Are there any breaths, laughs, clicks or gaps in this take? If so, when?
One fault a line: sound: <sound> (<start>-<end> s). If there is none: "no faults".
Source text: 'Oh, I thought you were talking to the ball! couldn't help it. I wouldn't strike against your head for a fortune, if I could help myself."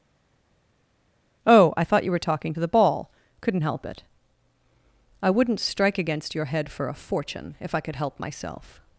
no faults